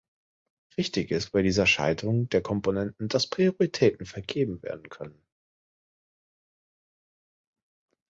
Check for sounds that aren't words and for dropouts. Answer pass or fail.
pass